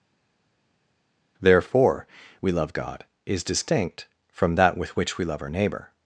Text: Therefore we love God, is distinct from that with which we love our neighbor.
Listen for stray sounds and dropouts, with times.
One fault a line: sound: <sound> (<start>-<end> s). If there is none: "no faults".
no faults